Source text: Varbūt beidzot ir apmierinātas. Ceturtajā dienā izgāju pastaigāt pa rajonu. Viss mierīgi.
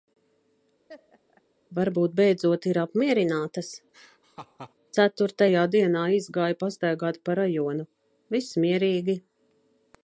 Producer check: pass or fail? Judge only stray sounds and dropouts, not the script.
fail